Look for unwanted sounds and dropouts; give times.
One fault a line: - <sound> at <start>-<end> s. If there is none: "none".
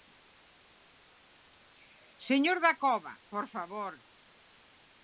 none